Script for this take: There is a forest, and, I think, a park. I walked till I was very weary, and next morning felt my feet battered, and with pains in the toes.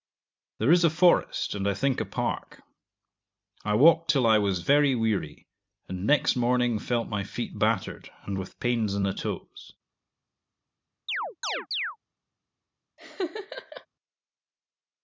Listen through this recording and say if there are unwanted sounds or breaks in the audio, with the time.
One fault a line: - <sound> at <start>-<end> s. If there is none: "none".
- chirp at 11.1-12.0 s
- laugh at 13.0-13.9 s